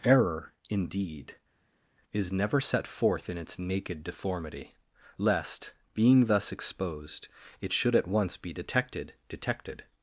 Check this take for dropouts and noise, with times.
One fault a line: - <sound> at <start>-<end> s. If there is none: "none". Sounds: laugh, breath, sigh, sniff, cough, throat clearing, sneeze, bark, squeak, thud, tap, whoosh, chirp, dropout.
none